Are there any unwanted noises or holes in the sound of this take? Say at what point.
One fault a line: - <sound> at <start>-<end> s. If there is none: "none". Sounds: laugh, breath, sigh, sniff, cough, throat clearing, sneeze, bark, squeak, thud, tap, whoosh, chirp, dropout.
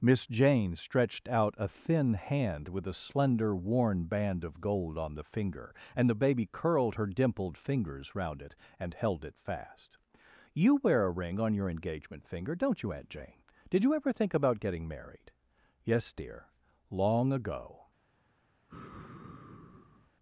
- sigh at 18.7-20.1 s